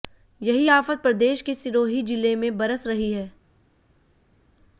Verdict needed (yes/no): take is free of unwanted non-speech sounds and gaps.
yes